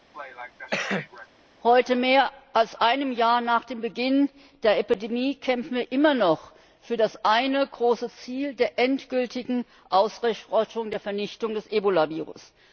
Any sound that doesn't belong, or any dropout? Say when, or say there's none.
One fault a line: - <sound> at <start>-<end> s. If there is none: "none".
- cough at 0.1-1.3 s